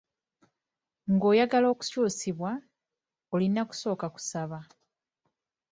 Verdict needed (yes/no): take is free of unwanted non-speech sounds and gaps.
yes